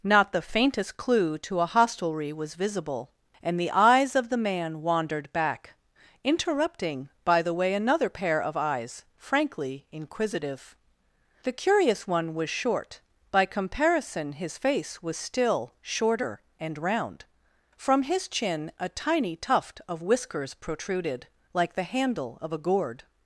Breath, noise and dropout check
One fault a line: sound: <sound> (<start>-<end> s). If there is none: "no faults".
no faults